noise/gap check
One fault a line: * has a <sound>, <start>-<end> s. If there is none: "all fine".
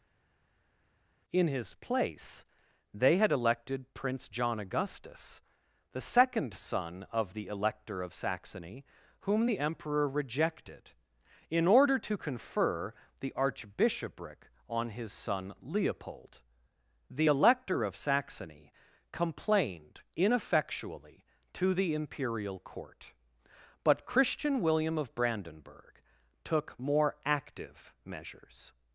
all fine